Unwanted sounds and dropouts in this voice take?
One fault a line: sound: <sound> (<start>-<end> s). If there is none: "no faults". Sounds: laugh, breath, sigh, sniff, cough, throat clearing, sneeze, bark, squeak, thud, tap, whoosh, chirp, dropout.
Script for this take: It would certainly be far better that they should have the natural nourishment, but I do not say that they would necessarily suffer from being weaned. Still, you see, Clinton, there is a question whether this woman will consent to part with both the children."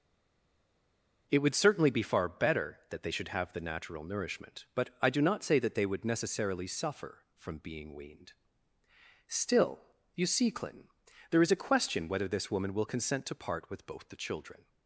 no faults